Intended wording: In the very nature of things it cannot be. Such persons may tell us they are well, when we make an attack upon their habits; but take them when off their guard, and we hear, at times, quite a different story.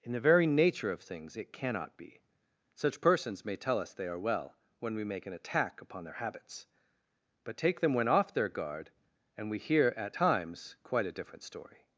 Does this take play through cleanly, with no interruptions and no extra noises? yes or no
yes